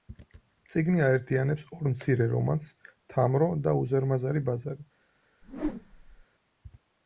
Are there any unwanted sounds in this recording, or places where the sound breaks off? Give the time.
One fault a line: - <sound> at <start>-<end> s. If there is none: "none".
- whoosh at 5.4-6.2 s